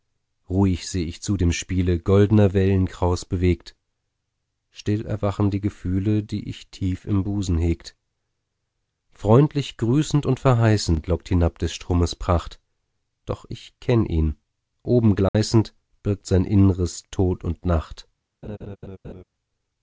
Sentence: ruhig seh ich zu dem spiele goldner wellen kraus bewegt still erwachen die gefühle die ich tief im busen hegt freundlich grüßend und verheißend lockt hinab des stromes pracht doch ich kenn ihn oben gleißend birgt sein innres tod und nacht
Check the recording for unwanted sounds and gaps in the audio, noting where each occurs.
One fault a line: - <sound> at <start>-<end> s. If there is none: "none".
- dropout at 15.3-15.3 s
- laugh at 18.4-19.2 s